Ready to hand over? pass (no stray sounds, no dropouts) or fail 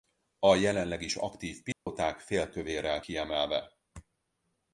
fail